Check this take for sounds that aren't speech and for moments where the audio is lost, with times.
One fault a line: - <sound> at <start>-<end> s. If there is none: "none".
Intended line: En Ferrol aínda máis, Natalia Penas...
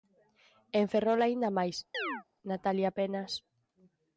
- chirp at 1.9-2.2 s